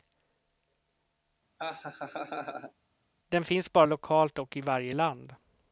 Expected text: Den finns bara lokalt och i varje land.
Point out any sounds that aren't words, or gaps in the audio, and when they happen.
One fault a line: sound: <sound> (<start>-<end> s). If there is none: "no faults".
sound: laugh (1.6-2.7 s)